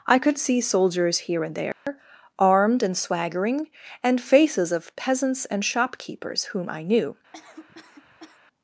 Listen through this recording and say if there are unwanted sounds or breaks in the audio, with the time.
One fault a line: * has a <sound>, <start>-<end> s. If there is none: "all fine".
* has a dropout, 1.7-1.9 s
* has a cough, 7.3-8.4 s